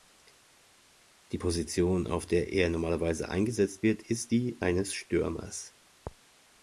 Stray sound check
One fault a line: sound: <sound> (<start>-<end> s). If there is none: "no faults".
no faults